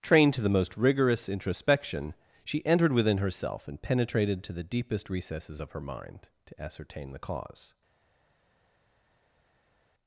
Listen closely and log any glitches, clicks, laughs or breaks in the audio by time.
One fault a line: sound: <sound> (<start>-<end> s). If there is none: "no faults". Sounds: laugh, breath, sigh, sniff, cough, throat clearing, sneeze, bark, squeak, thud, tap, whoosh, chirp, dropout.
no faults